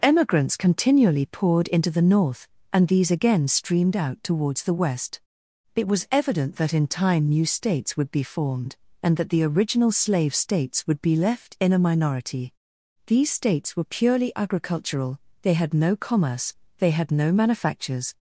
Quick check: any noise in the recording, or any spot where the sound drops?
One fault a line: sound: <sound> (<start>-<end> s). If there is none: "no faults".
no faults